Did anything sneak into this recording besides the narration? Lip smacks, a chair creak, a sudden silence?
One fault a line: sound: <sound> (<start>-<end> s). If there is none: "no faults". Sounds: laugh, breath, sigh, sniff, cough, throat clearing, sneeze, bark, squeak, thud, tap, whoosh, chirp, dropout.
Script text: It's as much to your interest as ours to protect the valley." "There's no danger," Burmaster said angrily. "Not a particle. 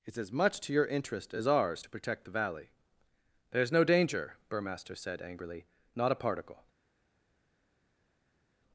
no faults